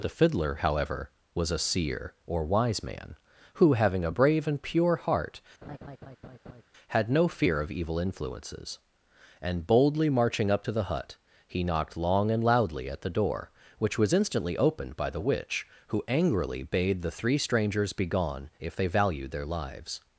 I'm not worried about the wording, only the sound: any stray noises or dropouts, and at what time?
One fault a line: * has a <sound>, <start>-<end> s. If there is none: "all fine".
* has a laugh, 5.6-6.6 s